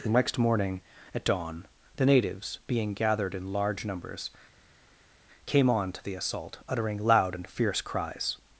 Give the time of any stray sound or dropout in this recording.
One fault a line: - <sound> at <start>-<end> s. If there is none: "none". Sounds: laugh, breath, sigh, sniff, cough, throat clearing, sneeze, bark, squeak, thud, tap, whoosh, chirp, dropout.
none